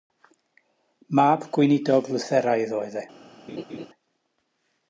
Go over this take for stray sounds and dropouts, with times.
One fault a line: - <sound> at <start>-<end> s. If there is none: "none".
- laugh at 3.5-3.9 s